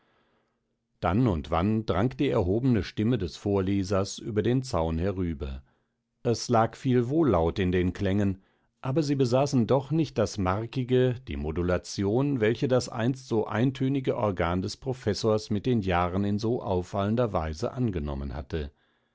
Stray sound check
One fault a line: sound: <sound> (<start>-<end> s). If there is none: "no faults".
no faults